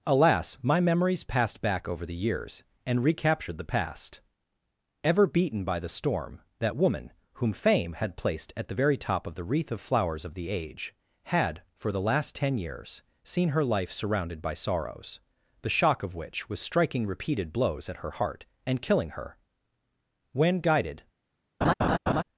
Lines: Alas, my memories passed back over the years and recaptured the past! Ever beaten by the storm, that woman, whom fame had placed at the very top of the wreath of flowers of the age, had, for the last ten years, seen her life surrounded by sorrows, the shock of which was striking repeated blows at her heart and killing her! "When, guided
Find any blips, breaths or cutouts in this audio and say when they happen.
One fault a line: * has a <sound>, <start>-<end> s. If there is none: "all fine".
* has a laugh, 21.6-22.2 s